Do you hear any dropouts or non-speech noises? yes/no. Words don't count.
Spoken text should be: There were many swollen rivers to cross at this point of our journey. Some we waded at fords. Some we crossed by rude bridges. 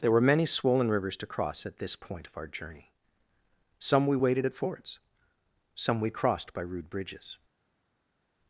no